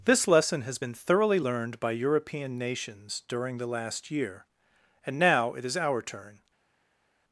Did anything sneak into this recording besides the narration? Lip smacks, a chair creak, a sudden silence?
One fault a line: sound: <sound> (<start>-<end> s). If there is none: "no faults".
no faults